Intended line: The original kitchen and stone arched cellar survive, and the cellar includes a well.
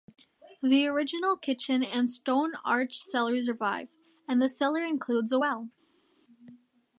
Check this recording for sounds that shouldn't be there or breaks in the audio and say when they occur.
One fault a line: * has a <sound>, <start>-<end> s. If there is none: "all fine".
all fine